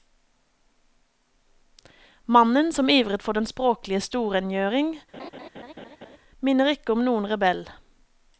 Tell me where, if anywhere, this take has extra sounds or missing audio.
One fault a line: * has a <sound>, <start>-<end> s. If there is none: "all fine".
* has a laugh, 5.1-6.2 s